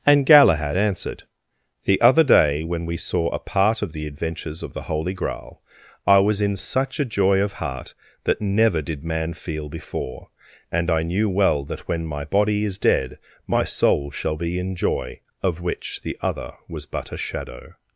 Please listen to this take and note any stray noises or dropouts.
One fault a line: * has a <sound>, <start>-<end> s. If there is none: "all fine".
all fine